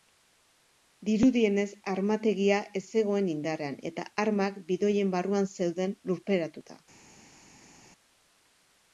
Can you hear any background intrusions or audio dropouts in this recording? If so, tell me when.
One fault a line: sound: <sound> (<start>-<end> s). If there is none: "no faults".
no faults